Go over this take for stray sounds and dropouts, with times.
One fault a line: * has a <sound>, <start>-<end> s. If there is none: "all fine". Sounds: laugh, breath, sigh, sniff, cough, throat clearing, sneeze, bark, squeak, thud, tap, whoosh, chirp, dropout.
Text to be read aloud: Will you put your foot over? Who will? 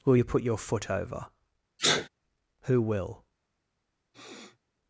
* has a sneeze, 1.8-2.1 s
* has a sniff, 4.1-4.6 s